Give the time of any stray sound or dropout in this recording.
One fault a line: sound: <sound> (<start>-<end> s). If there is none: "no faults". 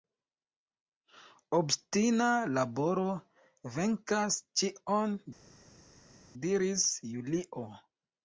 no faults